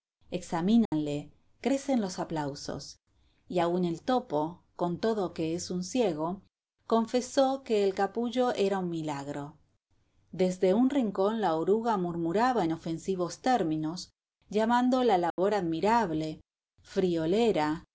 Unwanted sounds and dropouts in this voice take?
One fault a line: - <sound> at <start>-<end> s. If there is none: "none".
- dropout at 0.9-0.9 s
- dropout at 15.3-15.4 s